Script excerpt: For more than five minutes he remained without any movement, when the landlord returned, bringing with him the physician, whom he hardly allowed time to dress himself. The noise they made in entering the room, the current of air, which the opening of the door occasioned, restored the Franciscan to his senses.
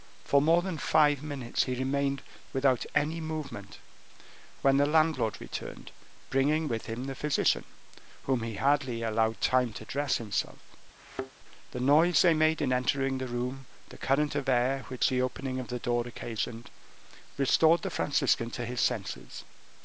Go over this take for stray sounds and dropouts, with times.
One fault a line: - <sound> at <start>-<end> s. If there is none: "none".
- thud at 11.0-11.3 s